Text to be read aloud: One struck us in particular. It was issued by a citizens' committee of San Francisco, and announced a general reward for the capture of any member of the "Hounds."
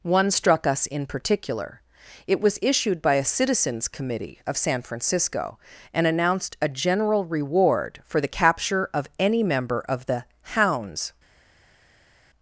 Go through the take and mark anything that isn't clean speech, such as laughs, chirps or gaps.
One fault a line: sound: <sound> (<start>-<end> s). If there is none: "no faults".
no faults